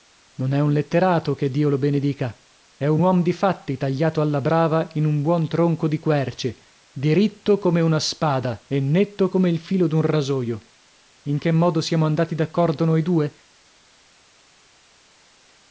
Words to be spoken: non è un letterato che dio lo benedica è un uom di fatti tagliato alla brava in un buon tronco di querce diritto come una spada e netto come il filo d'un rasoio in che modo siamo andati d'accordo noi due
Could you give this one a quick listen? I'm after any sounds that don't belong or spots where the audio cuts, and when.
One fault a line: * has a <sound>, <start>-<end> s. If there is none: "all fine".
all fine